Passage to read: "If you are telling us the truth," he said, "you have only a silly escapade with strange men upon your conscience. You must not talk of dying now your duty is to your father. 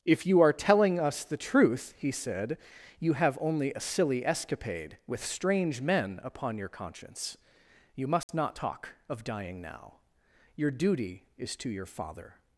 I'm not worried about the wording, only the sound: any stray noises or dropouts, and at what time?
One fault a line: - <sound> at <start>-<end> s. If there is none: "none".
- dropout at 8.2-8.3 s